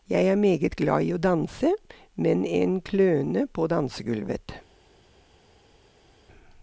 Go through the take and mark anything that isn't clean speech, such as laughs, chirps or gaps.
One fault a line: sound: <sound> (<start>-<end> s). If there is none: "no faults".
no faults